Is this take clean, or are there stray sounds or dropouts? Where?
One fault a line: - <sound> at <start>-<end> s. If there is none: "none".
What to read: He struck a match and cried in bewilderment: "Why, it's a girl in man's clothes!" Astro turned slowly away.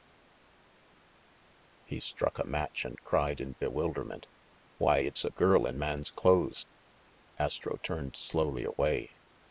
none